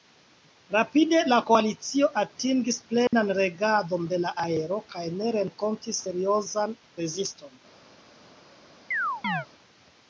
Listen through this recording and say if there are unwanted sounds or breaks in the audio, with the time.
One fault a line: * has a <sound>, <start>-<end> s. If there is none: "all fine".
* has a dropout, 3.1-3.1 s
* has a chirp, 8.9-9.5 s